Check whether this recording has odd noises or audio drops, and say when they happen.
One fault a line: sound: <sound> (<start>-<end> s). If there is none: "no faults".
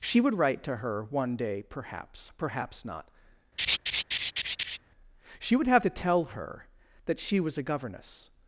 sound: laugh (3.6-4.8 s)